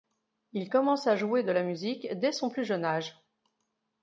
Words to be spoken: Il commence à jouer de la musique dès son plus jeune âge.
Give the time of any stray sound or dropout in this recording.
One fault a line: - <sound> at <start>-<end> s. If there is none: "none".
none